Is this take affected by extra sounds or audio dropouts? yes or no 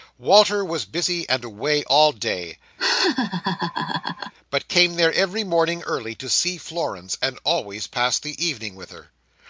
yes